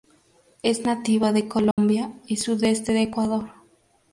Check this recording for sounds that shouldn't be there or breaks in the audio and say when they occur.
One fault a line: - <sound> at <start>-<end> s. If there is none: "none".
- dropout at 1.7-1.8 s